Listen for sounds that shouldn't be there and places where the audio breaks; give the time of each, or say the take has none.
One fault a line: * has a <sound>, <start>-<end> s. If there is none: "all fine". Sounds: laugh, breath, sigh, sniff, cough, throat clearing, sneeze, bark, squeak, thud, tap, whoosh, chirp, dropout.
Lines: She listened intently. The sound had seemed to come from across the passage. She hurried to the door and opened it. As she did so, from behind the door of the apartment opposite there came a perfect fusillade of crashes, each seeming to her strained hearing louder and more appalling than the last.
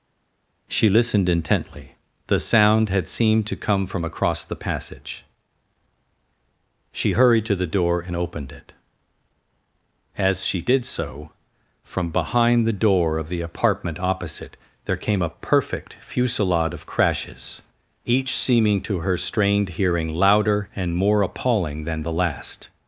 all fine